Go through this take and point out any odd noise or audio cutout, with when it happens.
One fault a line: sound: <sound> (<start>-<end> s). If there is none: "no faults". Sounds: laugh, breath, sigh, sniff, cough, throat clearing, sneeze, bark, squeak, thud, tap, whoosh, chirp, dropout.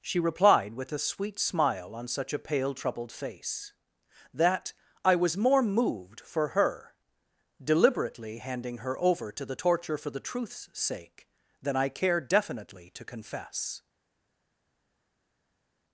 no faults